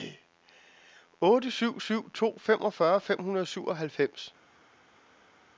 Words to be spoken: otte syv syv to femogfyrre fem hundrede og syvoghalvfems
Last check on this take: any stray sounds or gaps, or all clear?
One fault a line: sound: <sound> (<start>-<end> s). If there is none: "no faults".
no faults